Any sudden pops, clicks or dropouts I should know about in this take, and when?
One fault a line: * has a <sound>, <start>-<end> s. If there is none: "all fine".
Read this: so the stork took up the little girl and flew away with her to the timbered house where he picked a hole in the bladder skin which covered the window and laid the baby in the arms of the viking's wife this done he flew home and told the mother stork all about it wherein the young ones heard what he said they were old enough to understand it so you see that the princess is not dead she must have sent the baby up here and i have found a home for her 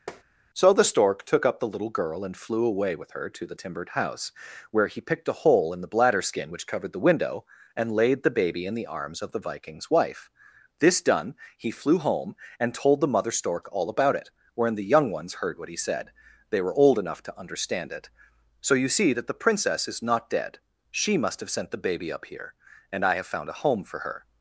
* has a tap, 0.1-0.2 s